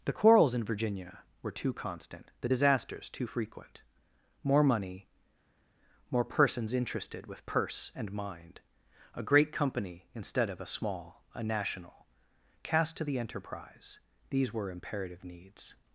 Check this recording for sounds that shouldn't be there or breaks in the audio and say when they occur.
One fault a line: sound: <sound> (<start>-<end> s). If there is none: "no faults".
no faults